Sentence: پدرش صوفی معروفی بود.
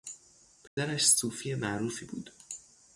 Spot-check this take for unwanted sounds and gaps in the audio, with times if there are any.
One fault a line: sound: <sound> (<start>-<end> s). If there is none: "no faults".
sound: dropout (0.7-0.8 s)